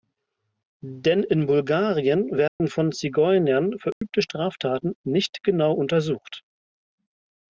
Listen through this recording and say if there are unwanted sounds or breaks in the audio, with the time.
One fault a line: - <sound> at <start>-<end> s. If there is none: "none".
- dropout at 2.5-2.6 s
- dropout at 3.9-4.0 s